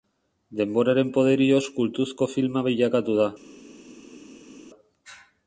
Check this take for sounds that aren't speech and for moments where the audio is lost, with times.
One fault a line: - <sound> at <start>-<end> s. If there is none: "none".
none